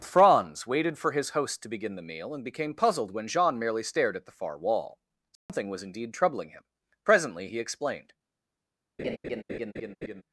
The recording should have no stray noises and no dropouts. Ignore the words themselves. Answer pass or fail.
fail